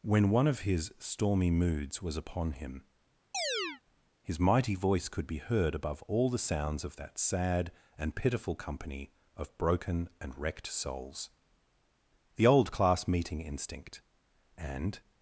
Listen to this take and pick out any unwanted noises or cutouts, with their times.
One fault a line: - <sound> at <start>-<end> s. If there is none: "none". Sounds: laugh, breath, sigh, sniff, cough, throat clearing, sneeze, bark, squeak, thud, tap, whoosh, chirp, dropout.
- chirp at 3.3-3.8 s